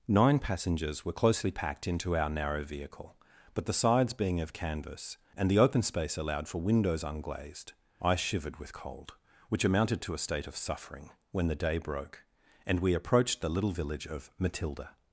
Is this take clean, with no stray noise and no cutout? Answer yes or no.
yes